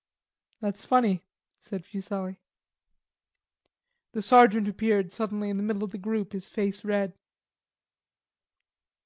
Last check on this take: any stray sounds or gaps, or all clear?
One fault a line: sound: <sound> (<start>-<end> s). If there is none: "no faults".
no faults